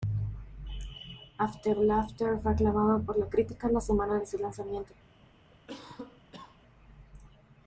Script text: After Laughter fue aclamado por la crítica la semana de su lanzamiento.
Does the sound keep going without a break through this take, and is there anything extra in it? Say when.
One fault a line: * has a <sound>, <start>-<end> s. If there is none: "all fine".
* has a cough, 5.5-6.6 s